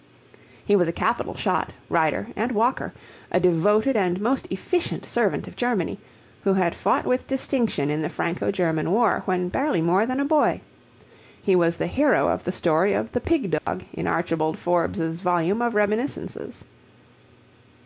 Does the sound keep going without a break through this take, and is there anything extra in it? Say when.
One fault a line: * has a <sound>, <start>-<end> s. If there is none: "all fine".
* has a dropout, 13.6-13.7 s